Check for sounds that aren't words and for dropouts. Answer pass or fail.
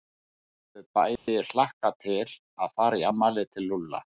fail